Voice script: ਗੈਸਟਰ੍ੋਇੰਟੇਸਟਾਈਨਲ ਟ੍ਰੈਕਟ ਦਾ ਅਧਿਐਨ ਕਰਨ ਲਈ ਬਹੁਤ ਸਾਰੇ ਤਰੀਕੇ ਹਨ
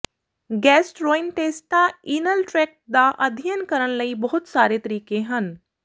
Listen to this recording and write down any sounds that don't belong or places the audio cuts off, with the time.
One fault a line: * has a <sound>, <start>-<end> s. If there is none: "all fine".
all fine